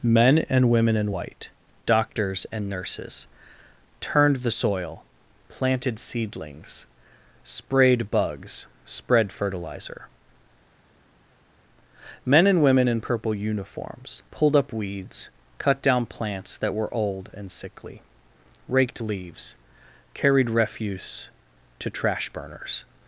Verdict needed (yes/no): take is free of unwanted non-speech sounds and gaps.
yes